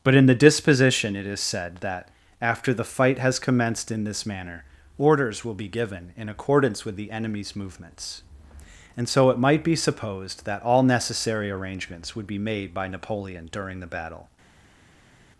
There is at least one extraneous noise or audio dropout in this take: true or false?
false